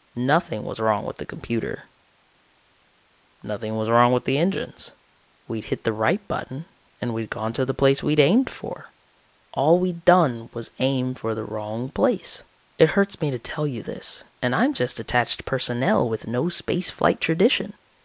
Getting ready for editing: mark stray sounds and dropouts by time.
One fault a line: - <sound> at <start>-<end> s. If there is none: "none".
none